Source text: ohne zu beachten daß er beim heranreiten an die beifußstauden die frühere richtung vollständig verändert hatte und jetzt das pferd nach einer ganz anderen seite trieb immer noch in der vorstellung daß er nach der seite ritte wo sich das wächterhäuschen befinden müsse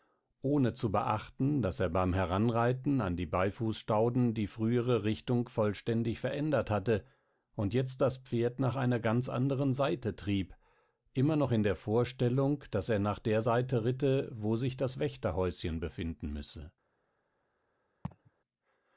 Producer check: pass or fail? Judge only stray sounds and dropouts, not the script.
fail